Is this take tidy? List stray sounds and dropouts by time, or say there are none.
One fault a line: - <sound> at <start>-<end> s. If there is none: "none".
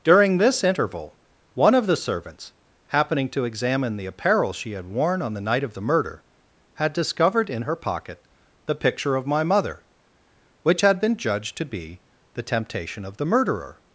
none